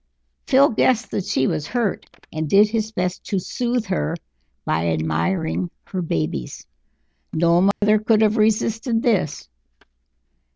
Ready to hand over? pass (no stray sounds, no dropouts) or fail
fail